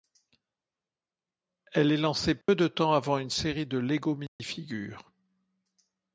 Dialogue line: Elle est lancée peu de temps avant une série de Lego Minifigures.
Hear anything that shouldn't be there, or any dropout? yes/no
yes